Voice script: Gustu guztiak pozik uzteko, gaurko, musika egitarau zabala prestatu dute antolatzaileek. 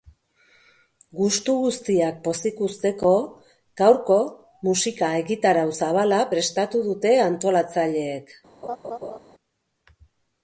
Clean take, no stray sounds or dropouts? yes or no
no